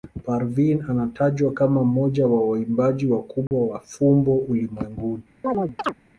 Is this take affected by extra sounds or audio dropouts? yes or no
yes